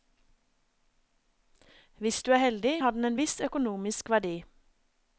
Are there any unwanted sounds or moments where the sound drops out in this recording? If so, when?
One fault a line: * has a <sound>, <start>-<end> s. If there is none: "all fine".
all fine